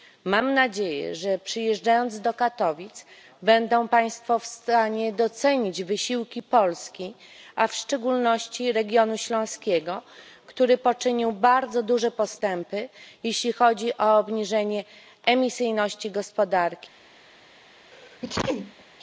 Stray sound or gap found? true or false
true